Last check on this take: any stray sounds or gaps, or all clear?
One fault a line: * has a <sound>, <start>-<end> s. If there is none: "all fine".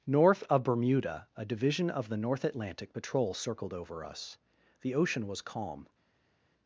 all fine